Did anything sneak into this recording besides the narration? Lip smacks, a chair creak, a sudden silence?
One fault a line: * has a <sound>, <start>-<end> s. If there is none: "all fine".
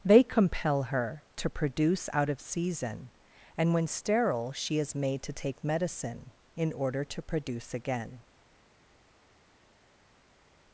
all fine